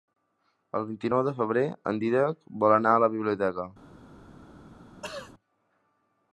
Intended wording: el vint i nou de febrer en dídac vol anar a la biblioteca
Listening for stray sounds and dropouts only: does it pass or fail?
fail